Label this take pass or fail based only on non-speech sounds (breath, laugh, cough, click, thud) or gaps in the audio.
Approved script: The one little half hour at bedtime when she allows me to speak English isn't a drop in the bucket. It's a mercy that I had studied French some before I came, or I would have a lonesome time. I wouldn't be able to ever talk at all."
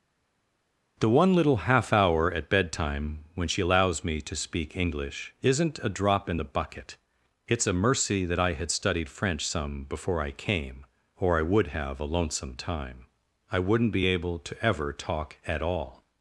pass